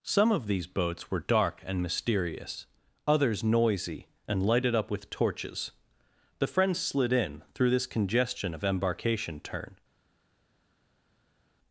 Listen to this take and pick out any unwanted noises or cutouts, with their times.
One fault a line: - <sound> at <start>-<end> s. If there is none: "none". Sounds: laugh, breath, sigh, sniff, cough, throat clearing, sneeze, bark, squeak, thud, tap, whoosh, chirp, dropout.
none